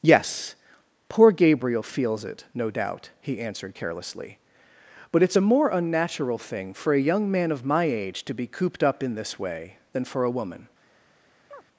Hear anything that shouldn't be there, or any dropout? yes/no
yes